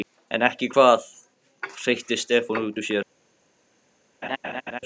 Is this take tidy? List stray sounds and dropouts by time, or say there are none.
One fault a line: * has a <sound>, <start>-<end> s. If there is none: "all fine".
* has a laugh, 4.2-4.8 s